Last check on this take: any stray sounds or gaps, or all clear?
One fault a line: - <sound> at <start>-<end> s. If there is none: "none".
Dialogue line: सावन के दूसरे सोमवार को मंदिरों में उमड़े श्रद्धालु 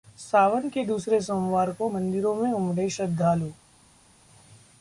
none